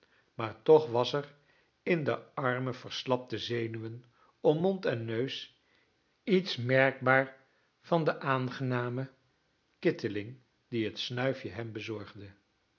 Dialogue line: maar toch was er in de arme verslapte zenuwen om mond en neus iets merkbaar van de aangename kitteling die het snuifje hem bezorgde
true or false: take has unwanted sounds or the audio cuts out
false